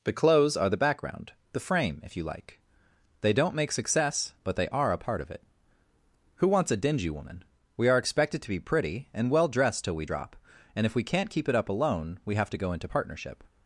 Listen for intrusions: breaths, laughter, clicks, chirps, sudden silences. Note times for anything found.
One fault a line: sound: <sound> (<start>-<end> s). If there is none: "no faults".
no faults